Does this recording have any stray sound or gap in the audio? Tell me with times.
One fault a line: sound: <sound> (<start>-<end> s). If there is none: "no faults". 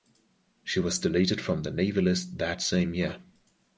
no faults